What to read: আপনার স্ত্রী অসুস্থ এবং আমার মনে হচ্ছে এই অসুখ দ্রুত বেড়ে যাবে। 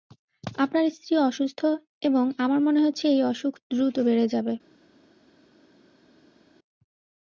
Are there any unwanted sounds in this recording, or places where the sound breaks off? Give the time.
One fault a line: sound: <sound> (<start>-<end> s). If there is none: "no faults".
no faults